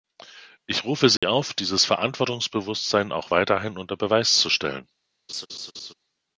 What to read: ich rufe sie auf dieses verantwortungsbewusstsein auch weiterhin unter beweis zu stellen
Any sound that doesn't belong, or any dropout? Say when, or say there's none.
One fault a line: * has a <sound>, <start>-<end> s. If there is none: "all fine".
* has a dropout, 1.2-1.2 s
* has a laugh, 5.3-5.9 s